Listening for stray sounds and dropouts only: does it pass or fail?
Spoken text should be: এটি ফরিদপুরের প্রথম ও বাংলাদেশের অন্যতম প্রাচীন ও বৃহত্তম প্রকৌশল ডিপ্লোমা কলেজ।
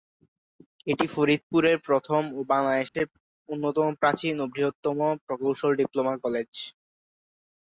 fail